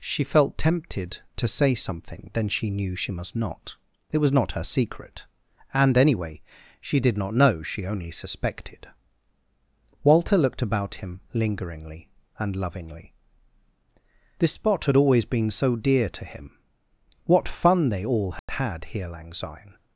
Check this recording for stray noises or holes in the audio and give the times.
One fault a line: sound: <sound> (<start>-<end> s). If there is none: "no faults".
sound: dropout (18.4-18.5 s)